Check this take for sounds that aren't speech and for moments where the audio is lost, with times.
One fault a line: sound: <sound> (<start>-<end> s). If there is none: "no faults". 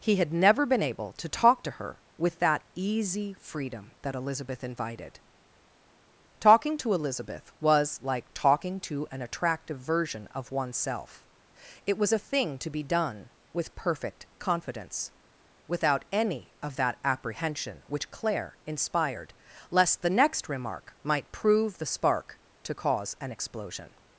no faults